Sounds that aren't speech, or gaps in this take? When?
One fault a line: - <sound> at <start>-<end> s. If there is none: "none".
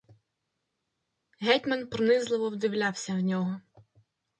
none